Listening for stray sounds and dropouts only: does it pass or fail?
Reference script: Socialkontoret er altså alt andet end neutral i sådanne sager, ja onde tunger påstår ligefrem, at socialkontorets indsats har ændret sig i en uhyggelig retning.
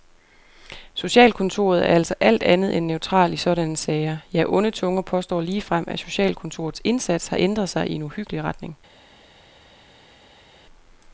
pass